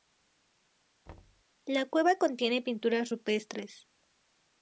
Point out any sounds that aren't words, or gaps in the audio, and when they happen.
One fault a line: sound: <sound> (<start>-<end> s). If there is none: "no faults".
sound: thud (1.1-1.4 s)